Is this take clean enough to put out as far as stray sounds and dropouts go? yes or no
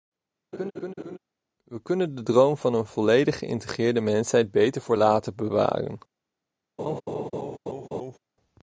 no